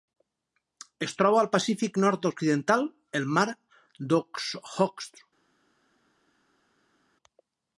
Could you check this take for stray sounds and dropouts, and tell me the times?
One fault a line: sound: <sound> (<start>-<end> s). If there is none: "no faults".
no faults